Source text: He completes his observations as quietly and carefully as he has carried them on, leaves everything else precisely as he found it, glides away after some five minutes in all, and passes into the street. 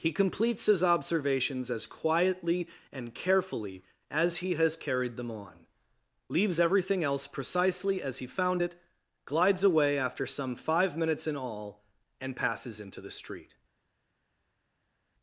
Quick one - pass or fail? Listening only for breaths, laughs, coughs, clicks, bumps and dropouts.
pass